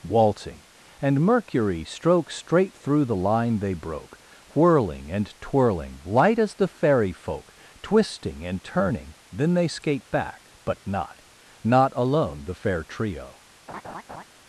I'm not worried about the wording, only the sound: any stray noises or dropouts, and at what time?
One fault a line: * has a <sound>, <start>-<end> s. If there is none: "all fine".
* has a laugh, 13.7-14.2 s